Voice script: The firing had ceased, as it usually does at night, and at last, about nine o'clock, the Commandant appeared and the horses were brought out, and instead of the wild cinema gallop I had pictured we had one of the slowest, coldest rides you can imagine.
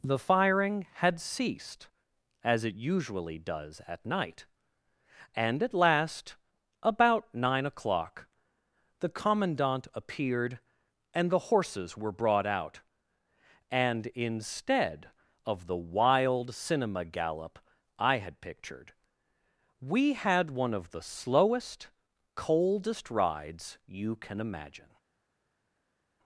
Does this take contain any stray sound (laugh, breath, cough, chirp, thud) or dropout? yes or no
no